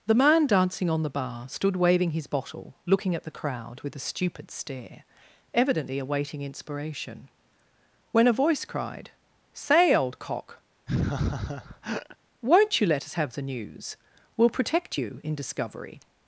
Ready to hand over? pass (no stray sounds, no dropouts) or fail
fail